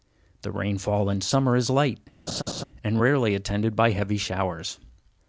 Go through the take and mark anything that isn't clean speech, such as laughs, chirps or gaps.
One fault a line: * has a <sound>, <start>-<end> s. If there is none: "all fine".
* has a laugh, 2.3-2.6 s